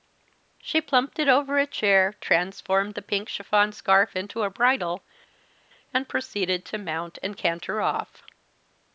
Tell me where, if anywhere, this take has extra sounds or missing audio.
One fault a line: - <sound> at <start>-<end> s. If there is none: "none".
none